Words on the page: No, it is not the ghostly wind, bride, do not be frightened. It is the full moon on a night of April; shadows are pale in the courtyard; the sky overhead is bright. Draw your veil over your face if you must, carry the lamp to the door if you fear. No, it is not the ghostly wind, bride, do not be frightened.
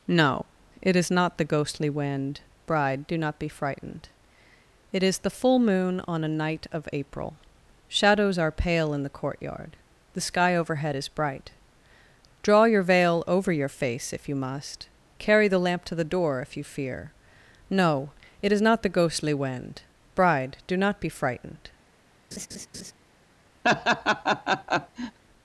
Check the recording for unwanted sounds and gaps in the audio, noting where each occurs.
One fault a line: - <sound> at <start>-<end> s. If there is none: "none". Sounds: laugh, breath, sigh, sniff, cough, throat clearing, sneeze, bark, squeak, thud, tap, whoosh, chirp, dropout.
- laugh at 22.3-22.9 s
- laugh at 23.6-25.2 s